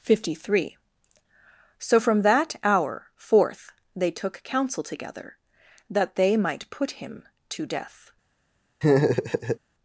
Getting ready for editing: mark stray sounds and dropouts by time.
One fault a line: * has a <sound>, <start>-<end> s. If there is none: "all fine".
* has a laugh, 8.8-9.6 s